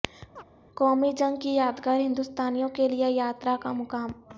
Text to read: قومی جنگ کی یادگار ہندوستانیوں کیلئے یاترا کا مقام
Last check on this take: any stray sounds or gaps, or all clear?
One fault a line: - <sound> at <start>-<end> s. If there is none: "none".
- chirp at 0.4-0.4 s